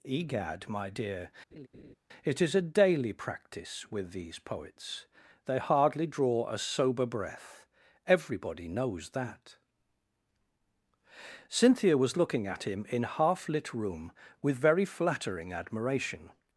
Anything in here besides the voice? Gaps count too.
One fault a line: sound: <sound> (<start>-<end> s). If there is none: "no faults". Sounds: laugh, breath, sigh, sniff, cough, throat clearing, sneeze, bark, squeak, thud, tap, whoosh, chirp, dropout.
sound: laugh (1.5-1.9 s)